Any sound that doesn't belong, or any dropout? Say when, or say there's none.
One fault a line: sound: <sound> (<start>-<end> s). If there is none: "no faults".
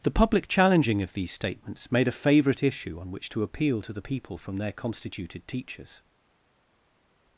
no faults